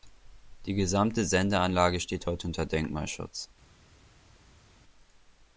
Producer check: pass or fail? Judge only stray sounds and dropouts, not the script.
pass